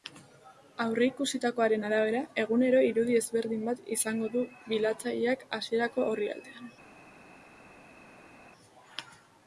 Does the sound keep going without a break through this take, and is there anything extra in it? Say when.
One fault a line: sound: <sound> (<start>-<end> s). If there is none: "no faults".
no faults